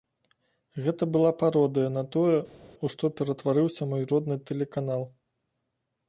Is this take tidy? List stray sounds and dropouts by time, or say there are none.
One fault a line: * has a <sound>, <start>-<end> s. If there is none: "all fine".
all fine